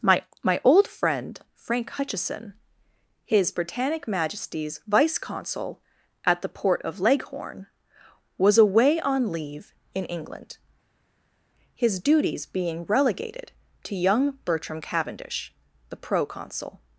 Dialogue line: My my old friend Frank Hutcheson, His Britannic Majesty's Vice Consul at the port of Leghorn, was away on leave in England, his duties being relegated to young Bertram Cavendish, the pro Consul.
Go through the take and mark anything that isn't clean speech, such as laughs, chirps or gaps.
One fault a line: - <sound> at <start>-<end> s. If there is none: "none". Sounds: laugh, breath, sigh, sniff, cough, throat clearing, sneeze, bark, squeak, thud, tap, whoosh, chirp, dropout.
none